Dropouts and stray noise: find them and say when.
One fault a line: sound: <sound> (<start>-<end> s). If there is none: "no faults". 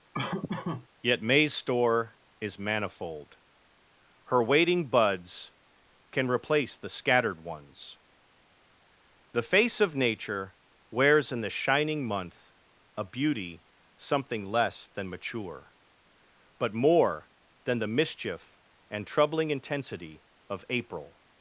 sound: laugh (0.1-0.9 s)